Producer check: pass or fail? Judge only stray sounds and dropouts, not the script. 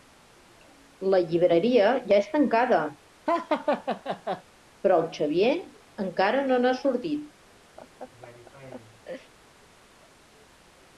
fail